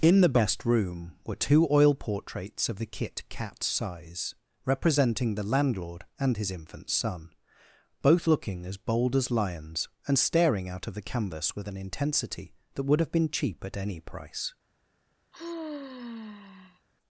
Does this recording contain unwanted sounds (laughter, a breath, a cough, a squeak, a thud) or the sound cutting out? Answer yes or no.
yes